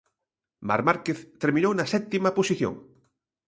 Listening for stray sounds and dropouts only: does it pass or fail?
pass